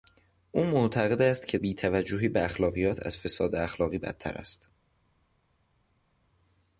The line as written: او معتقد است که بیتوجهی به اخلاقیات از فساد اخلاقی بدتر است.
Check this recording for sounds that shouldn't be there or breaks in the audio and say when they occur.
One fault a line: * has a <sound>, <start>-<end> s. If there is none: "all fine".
all fine